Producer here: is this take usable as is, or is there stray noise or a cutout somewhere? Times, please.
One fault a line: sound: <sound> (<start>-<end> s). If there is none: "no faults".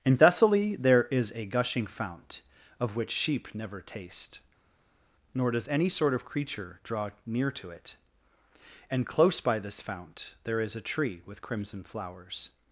no faults